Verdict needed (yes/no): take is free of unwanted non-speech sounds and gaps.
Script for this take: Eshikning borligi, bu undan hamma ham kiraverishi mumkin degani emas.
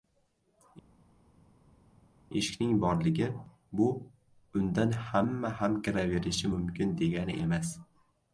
yes